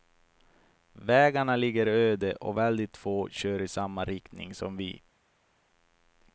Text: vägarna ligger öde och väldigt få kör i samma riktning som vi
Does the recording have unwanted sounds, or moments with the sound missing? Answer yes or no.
no